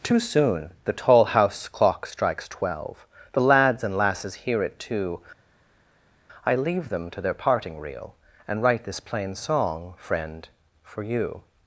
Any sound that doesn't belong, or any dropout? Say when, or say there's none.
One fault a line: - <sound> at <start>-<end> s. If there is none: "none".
none